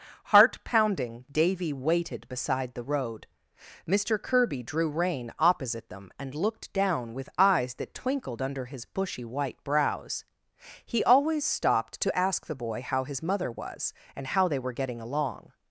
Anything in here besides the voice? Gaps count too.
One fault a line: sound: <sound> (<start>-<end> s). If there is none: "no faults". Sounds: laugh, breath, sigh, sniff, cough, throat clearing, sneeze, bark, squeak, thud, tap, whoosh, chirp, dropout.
no faults